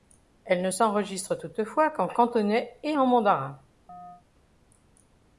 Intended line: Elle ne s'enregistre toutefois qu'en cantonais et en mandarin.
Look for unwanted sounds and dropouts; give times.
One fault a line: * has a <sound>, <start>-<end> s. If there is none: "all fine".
* has a chirp, 3.9-4.2 s